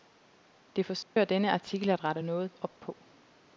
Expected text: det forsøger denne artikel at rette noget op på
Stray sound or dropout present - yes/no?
yes